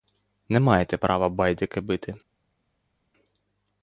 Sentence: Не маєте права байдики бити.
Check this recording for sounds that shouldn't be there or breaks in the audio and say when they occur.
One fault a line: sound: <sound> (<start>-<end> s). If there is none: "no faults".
no faults